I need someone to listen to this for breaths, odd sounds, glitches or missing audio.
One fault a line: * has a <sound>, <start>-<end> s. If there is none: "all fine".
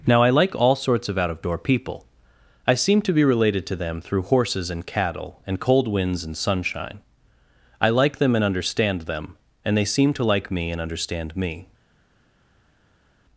all fine